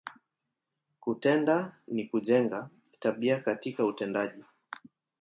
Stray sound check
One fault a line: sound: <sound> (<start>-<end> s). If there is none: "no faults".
no faults